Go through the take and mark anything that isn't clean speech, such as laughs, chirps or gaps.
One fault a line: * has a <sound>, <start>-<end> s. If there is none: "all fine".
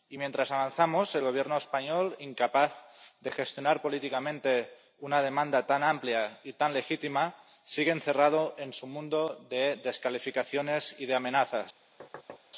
* has a thud, 12.0-12.4 s